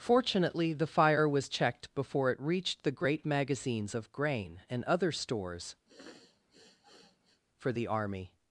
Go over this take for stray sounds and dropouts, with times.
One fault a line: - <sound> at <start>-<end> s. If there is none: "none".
- sniff at 5.9-7.4 s